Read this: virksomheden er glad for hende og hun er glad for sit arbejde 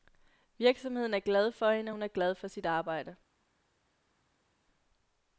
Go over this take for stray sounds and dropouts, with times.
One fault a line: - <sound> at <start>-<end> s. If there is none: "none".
none